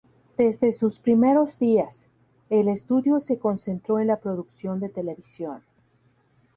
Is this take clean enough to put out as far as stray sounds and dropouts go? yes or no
yes